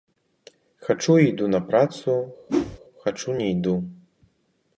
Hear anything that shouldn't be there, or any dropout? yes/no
yes